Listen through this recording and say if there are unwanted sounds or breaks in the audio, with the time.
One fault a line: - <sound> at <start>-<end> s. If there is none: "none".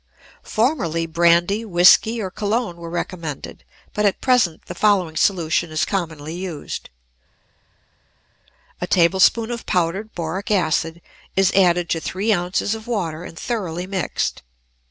none